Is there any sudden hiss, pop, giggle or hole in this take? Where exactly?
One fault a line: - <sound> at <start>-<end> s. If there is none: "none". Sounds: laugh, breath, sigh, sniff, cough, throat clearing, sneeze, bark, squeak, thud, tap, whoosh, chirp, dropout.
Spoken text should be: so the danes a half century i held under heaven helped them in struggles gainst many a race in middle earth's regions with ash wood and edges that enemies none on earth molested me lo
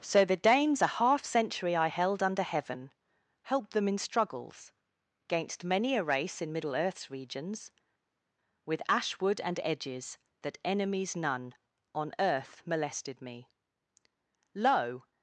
none